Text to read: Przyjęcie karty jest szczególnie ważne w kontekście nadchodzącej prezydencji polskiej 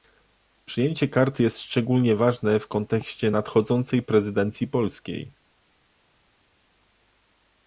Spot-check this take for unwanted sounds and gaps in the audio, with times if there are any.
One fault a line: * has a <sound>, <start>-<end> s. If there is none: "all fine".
all fine